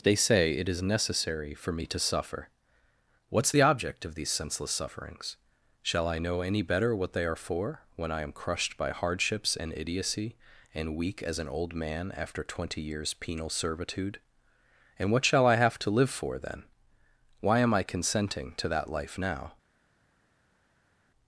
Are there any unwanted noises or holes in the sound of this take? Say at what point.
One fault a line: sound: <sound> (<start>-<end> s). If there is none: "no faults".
no faults